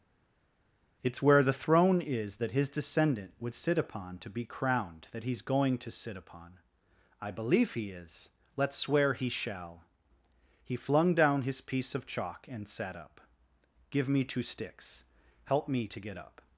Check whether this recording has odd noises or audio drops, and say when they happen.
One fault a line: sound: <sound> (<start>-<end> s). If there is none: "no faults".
no faults